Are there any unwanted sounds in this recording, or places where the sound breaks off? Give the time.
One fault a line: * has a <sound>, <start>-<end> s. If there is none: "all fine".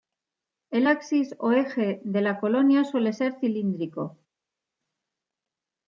all fine